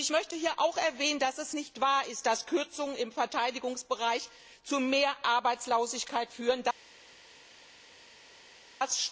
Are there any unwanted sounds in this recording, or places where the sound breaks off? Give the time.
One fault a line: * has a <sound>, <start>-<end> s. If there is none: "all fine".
all fine